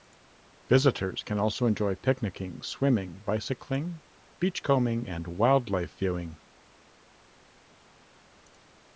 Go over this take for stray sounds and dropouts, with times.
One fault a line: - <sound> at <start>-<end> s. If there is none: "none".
none